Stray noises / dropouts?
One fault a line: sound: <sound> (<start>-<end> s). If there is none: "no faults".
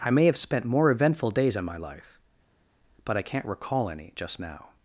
no faults